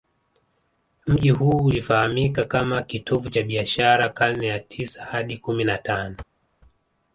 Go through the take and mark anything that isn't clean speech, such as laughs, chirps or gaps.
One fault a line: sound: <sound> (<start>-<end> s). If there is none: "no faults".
no faults